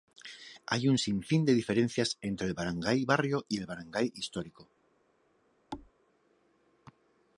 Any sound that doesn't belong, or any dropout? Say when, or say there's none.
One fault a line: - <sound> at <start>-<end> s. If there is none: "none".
- thud at 5.7-5.9 s